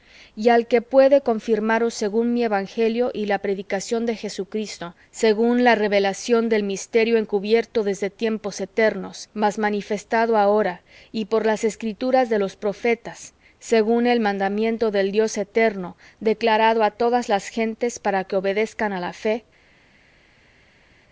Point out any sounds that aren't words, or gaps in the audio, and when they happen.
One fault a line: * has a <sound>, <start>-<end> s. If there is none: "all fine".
all fine